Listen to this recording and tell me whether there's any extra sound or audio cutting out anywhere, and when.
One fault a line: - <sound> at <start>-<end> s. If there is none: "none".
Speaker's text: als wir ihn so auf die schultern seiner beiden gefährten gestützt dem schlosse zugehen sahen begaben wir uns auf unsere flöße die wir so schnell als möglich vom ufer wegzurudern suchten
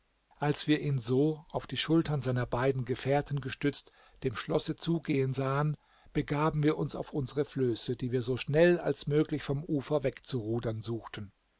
none